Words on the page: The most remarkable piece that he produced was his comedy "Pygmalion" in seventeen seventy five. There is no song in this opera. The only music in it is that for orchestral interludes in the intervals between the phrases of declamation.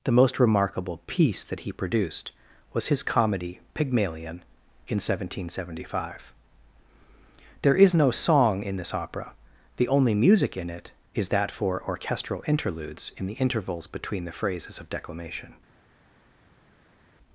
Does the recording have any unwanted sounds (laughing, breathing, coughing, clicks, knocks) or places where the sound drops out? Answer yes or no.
no